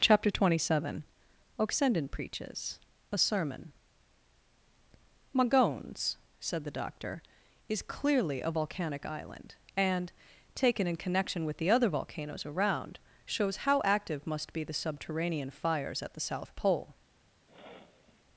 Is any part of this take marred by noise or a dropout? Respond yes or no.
yes